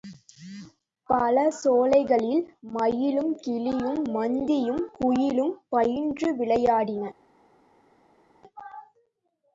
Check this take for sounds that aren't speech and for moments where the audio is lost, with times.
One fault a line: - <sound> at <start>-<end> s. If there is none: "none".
none